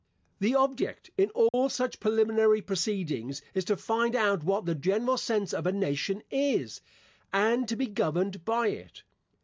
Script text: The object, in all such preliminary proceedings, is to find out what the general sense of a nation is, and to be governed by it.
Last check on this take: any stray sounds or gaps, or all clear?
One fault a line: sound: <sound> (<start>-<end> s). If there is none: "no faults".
sound: dropout (1.5-1.5 s)